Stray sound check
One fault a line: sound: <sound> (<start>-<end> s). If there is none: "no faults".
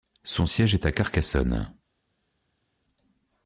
no faults